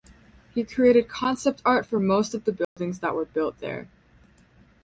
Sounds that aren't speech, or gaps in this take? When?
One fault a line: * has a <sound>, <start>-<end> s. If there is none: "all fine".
* has a dropout, 2.6-2.8 s